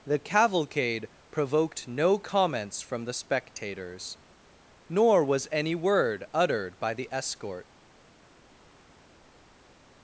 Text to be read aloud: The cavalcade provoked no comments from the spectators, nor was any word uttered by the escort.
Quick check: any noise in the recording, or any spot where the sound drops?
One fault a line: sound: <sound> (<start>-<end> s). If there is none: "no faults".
no faults